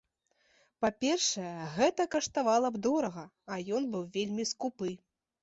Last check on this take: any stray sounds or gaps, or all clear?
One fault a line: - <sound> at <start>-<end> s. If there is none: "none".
none